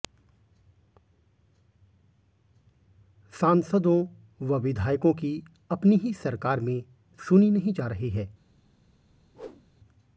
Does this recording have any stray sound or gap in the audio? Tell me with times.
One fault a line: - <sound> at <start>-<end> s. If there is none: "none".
- whoosh at 9.3-9.7 s